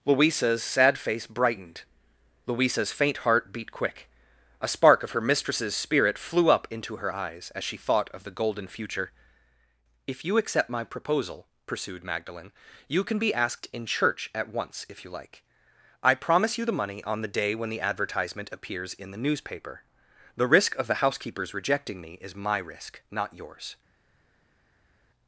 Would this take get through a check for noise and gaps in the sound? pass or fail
pass